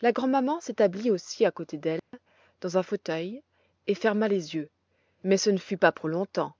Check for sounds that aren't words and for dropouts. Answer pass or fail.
fail